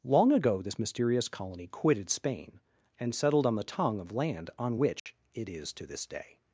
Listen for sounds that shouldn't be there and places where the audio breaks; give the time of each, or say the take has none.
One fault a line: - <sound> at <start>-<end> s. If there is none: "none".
- dropout at 5.0-5.1 s